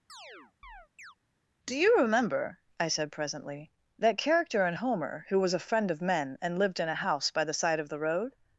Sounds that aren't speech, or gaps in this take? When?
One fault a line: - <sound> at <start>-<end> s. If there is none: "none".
- chirp at 0.1-1.2 s